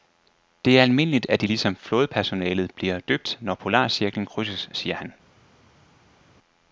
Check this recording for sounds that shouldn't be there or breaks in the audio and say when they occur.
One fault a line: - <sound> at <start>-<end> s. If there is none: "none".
none